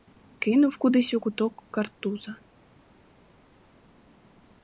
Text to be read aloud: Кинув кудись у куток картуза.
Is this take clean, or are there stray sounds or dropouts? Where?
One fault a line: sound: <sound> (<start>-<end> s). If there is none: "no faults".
no faults